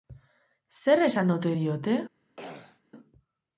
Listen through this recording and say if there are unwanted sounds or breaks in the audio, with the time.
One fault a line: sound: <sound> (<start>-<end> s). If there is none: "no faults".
sound: throat clearing (2.4-2.8 s)